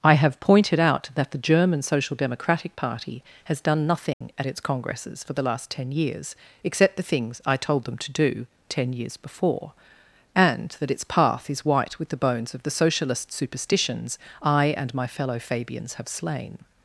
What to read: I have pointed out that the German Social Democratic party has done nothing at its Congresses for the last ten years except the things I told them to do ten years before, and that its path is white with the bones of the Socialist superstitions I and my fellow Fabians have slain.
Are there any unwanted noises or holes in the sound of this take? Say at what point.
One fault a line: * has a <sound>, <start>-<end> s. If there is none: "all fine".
* has a dropout, 4.1-4.2 s